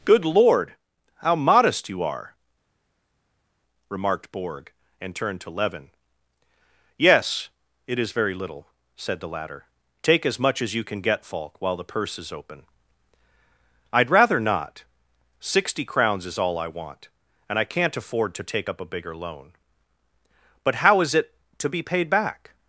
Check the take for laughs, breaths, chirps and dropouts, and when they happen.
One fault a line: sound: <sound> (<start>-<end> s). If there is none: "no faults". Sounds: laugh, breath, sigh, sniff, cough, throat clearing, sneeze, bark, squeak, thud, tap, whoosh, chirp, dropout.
no faults